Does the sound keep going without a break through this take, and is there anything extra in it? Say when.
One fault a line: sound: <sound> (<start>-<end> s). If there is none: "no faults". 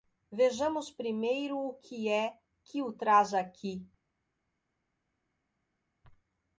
no faults